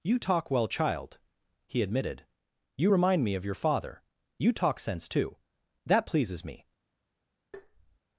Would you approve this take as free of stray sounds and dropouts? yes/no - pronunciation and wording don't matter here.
no